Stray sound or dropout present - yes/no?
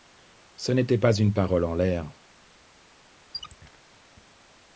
yes